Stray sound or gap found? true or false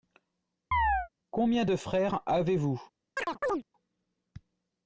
true